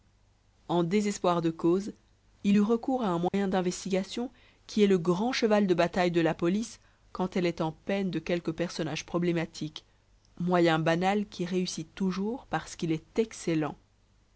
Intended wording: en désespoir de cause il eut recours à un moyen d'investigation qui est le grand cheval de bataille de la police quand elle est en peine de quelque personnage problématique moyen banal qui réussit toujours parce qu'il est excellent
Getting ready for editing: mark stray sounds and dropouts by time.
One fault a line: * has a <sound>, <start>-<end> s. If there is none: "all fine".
* has a dropout, 3.3-3.3 s